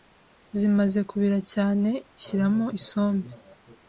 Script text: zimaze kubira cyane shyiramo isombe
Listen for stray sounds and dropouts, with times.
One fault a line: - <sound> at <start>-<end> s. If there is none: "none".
none